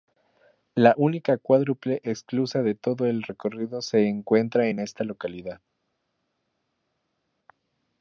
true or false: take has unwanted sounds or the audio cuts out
false